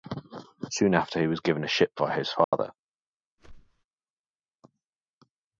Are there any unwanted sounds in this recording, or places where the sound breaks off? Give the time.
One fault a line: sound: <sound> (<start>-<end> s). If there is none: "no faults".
sound: dropout (2.4-2.5 s)
sound: whoosh (3.4-3.8 s)